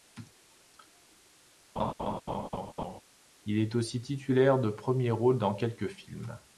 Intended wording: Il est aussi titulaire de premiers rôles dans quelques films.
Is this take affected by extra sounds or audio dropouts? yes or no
yes